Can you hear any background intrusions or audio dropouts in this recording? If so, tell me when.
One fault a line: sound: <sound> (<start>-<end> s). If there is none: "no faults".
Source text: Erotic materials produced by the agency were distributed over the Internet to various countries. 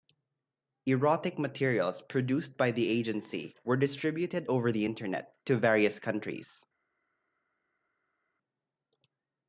no faults